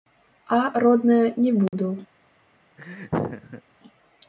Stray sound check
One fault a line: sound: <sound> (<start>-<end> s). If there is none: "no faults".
sound: dropout (1.7-1.7 s)
sound: laugh (2.8-3.6 s)